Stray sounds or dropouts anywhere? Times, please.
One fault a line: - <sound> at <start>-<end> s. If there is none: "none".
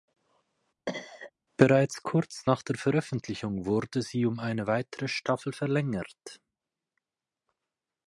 - cough at 0.9-1.3 s